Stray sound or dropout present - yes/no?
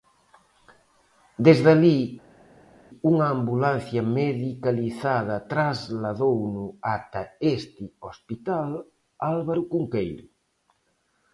no